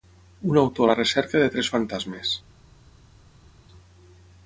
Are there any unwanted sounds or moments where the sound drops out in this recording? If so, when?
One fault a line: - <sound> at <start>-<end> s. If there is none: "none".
none